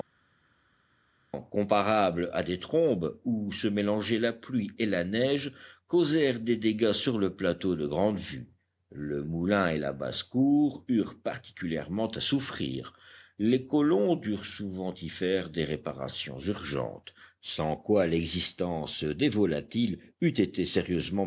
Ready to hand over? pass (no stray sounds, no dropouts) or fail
pass